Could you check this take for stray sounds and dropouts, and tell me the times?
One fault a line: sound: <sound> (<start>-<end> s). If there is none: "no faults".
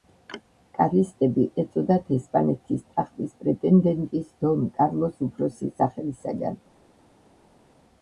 no faults